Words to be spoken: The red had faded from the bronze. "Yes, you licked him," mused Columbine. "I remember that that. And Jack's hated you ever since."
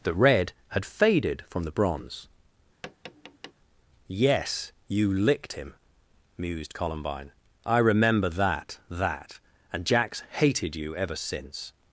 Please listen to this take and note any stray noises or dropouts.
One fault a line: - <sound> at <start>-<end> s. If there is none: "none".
- tap at 2.8-3.5 s